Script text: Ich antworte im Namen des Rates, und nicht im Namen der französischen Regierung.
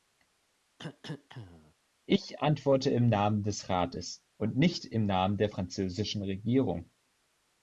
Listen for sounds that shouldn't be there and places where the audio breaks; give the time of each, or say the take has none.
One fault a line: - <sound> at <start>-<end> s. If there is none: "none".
- cough at 0.8-1.7 s